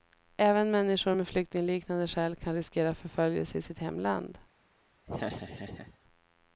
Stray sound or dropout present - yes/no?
yes